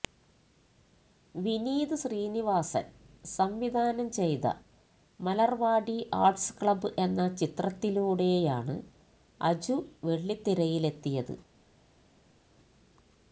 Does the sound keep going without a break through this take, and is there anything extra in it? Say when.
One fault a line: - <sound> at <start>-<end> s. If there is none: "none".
none